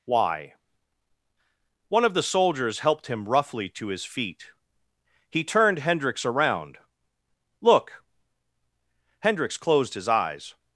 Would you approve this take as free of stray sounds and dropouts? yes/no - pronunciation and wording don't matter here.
yes